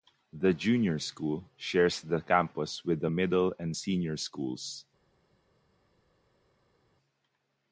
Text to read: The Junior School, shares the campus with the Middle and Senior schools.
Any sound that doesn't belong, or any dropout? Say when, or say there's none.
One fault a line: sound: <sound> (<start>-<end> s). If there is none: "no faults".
no faults